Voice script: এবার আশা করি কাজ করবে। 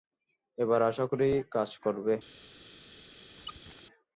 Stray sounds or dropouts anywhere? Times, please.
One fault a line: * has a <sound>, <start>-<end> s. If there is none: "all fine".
* has a squeak, 3.4-3.8 s